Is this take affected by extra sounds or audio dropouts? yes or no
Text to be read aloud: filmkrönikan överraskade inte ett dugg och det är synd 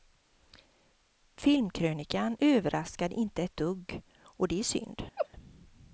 yes